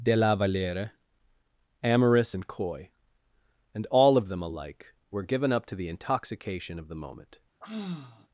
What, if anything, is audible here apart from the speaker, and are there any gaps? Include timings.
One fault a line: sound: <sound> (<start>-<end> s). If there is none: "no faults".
sound: sigh (7.6-8.3 s)